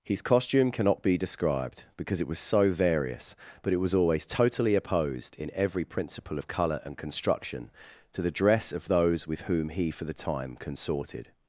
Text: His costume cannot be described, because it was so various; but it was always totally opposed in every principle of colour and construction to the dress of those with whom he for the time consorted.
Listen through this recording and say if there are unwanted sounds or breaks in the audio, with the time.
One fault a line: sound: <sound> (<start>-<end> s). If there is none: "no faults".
no faults